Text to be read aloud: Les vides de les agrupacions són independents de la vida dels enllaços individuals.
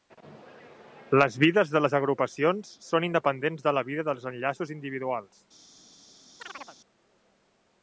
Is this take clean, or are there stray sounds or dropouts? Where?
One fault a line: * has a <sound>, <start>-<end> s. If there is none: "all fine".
* has a chirp, 6.4-6.8 s